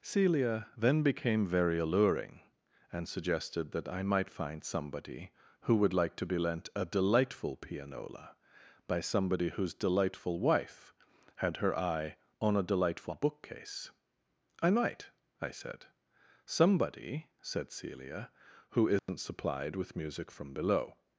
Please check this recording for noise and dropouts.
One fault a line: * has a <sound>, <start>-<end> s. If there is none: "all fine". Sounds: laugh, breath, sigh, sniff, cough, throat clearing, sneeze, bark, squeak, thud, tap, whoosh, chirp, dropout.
* has a dropout, 19.0-19.1 s